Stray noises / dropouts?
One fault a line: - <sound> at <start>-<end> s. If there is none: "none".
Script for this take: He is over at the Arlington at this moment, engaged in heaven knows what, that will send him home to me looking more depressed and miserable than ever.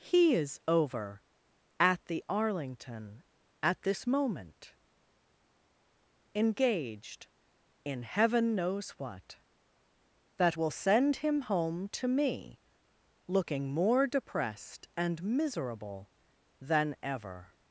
none